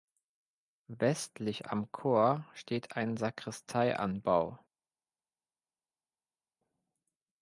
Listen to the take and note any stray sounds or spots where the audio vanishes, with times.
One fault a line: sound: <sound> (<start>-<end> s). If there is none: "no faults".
no faults